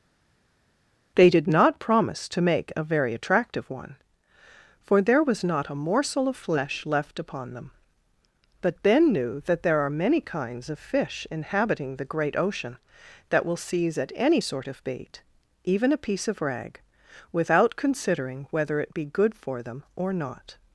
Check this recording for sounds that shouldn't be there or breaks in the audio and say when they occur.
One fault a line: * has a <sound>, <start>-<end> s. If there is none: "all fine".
all fine